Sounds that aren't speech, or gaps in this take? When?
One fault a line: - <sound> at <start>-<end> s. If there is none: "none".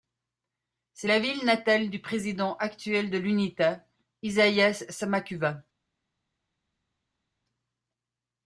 none